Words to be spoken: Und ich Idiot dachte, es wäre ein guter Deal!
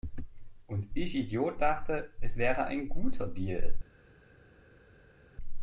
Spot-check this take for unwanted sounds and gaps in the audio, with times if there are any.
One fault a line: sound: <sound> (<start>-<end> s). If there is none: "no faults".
no faults